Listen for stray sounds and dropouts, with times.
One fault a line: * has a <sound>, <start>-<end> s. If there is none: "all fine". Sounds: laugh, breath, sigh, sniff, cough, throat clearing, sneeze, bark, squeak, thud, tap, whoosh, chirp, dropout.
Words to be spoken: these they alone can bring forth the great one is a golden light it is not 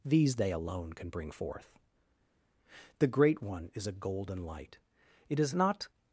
all fine